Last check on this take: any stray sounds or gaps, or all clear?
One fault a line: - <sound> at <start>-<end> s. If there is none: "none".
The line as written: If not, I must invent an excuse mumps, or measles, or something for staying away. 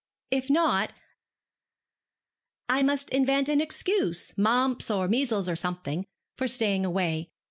none